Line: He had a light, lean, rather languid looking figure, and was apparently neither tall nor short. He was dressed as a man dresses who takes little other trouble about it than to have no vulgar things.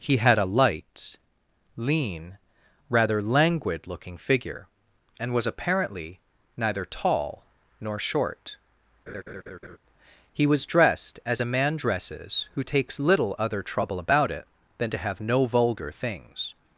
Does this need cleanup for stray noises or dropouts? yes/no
yes